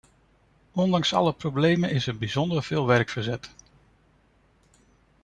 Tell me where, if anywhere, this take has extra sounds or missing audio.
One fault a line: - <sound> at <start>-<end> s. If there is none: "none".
none